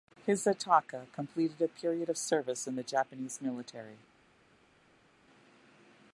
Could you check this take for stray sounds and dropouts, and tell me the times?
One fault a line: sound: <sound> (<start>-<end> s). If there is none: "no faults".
no faults